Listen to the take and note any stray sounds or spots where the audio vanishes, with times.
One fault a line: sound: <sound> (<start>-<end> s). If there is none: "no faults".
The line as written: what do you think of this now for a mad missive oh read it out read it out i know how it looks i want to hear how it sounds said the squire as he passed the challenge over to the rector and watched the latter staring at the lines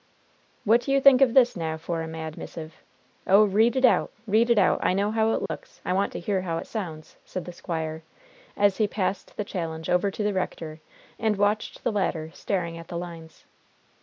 sound: dropout (5.5-5.5 s)